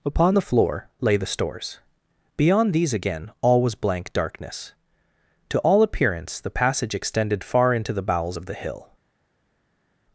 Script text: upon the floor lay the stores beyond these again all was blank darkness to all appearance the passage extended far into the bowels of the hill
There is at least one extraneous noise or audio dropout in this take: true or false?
false